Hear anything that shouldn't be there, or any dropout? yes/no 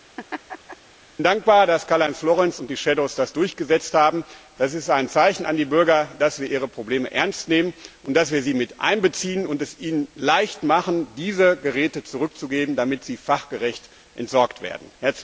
yes